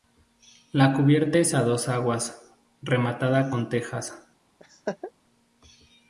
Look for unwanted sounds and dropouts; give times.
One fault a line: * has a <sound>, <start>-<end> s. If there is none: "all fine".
* has a laugh, 4.6-5.1 s